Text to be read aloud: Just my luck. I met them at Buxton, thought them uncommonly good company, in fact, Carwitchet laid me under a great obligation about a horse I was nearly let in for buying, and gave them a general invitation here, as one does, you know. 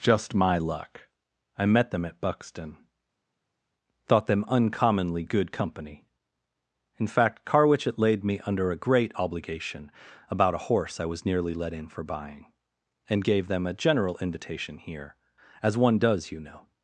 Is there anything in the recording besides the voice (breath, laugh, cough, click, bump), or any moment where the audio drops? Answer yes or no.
no